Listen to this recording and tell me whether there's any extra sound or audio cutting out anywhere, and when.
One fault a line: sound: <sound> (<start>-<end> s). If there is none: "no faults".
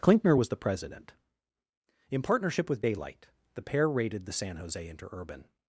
no faults